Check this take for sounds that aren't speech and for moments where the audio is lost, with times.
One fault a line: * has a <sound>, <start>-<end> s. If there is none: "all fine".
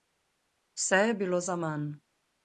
all fine